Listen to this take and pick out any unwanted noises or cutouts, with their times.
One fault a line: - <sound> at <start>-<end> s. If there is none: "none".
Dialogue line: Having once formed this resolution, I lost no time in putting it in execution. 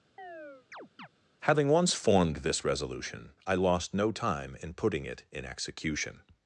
- chirp at 0.2-1.1 s